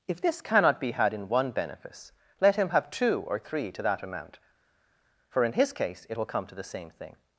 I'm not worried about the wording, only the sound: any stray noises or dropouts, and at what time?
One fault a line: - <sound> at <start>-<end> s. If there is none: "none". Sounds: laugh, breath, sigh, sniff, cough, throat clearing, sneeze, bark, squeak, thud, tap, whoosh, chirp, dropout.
none